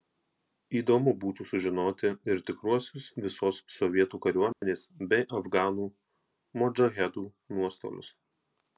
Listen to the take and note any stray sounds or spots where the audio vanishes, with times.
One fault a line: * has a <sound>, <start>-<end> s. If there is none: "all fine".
* has a dropout, 4.5-4.6 s